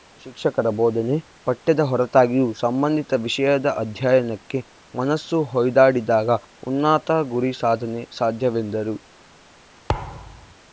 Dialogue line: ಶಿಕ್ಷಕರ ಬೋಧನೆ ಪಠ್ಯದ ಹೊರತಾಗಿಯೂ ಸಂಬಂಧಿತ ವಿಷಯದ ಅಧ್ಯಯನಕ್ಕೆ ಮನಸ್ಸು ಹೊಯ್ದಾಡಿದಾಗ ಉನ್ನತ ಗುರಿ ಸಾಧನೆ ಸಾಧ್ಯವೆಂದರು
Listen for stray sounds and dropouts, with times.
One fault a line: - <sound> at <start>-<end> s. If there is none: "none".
- thud at 9.9-10.5 s